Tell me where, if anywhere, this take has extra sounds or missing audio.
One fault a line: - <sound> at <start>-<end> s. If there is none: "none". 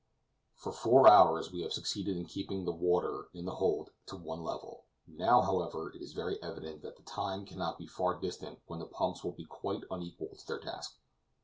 none